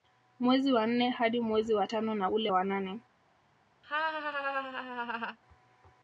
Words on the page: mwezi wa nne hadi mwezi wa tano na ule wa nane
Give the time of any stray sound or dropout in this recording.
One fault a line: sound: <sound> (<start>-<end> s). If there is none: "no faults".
sound: laugh (3.8-5.4 s)